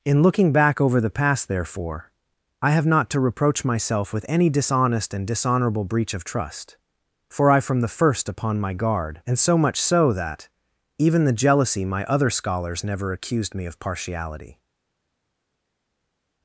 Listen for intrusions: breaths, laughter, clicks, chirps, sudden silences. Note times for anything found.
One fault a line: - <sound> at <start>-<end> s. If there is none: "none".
none